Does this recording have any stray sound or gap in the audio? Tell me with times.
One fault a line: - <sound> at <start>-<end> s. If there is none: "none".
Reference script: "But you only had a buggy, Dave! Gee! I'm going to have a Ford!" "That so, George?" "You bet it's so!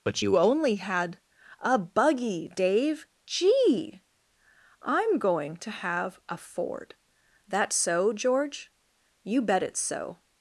none